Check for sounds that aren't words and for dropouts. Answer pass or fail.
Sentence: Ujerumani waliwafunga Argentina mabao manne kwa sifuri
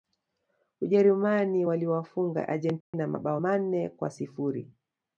fail